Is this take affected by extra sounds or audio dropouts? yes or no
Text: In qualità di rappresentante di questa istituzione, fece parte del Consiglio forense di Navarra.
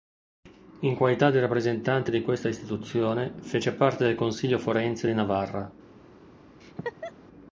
yes